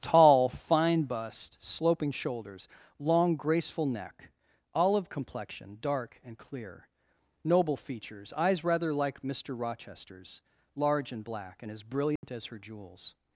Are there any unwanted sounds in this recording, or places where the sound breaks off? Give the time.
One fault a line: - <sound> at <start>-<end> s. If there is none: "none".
- dropout at 12.2-12.2 s